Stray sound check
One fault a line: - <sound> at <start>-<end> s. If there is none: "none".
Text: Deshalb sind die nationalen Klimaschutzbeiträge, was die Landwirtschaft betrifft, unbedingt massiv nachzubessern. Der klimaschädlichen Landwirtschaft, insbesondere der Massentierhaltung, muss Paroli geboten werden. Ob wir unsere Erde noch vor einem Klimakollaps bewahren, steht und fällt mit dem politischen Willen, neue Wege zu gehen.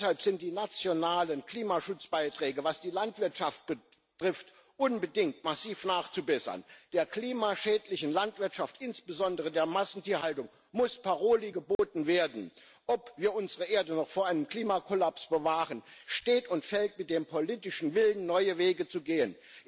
- dropout at 11.7-11.8 s